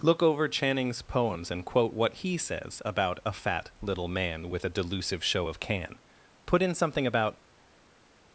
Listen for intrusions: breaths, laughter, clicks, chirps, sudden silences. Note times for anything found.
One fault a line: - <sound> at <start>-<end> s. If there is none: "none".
none